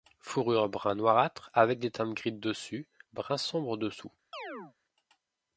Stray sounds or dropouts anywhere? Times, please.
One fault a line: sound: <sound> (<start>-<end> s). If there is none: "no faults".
sound: chirp (4.3-4.7 s)